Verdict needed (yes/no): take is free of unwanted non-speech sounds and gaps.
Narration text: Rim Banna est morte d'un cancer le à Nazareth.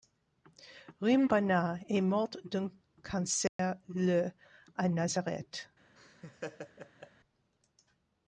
no